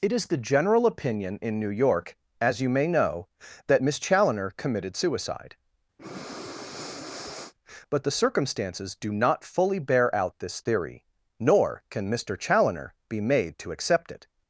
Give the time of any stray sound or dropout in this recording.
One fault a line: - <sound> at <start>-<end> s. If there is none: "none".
- breath at 6.0-7.5 s